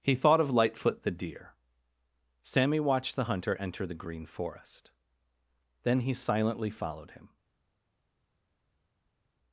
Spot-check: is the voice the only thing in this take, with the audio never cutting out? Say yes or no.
yes